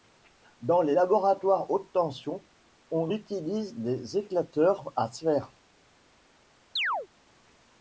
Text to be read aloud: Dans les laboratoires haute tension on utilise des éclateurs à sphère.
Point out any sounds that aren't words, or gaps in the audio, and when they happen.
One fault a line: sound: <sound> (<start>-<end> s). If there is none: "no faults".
sound: chirp (6.8-7.1 s)